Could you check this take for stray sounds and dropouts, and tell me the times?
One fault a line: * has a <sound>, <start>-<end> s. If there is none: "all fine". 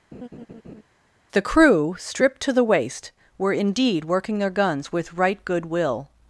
* has a laugh, 0.1-0.8 s